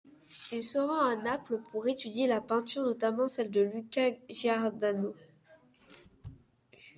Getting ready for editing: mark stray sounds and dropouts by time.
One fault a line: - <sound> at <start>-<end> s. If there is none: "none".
none